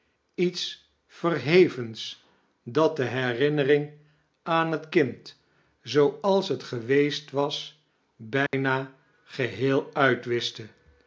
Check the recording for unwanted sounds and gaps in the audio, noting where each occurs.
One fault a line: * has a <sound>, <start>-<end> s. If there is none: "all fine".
* has a dropout, 8.5-8.5 s